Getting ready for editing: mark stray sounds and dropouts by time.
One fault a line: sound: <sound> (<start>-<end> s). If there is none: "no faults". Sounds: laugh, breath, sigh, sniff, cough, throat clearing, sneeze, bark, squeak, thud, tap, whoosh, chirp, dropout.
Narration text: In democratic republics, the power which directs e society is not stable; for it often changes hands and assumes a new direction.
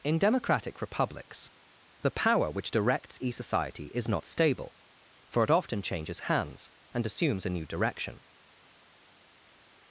no faults